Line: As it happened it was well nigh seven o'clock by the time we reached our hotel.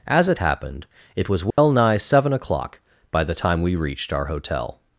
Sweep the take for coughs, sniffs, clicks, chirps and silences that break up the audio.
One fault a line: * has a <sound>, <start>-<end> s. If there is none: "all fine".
* has a dropout, 1.5-1.6 s